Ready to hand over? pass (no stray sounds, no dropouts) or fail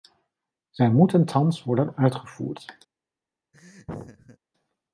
fail